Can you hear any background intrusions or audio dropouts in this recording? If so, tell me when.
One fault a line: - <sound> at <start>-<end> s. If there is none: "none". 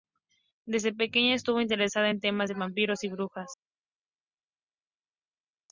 none